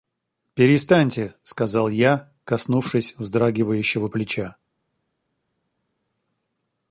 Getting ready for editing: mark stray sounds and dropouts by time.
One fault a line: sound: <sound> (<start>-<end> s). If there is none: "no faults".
no faults